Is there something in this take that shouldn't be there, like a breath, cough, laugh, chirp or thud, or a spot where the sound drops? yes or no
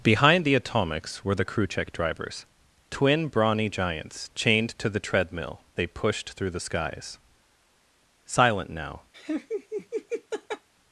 yes